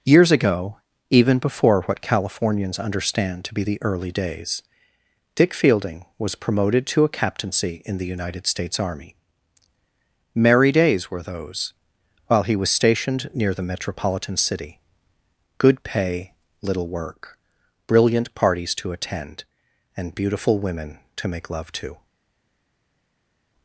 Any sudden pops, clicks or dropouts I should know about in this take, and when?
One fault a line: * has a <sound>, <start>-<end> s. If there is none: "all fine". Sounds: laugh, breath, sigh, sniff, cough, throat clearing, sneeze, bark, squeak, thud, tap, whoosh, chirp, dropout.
all fine